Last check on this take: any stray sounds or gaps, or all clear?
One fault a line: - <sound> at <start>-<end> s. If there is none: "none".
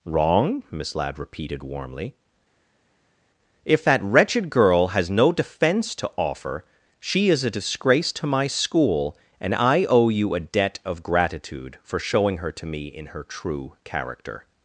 none